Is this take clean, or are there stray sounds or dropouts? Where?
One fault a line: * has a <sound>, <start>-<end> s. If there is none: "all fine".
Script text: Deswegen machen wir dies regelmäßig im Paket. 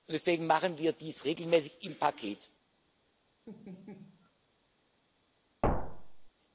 * has a laugh, 3.5-4.3 s
* has a thud, 5.6-6.3 s